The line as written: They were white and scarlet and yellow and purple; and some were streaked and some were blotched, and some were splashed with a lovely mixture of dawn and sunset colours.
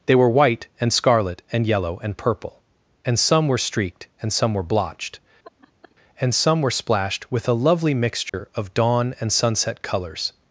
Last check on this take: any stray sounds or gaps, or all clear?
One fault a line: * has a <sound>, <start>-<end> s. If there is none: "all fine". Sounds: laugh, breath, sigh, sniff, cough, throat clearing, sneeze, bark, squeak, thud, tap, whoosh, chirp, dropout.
* has a laugh, 5.4-6.0 s
* has a dropout, 8.3-8.3 s